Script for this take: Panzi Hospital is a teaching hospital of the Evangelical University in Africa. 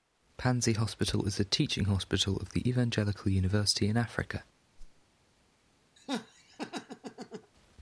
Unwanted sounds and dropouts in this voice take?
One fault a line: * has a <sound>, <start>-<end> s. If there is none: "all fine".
* has a whoosh, 4.8-5.0 s
* has a laugh, 6.0-7.5 s